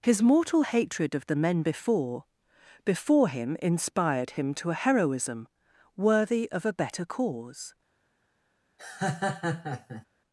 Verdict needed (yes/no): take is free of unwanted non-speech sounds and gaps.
no